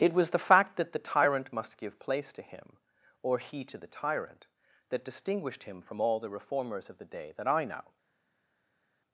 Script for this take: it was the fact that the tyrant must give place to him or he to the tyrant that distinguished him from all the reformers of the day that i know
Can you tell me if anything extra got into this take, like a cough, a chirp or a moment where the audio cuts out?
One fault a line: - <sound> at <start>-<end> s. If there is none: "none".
none